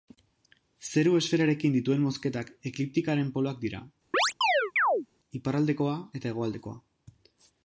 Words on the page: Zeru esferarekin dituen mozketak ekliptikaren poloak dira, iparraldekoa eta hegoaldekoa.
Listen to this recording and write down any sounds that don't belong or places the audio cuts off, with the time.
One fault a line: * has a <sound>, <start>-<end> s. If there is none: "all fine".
* has a chirp, 4.1-5.1 s